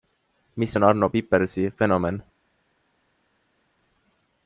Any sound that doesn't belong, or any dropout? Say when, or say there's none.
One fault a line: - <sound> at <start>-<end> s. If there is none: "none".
none